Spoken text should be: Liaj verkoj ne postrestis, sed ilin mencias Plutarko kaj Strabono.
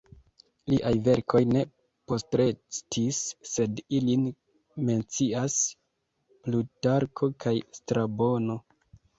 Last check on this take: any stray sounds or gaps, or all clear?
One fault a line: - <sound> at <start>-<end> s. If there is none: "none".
none